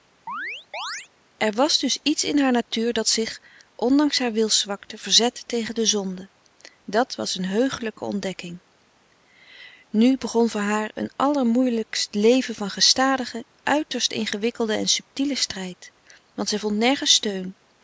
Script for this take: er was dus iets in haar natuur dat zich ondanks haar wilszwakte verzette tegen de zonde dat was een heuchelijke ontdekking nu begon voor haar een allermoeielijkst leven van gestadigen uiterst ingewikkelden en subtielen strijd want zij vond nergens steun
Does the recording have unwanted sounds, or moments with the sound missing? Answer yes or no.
yes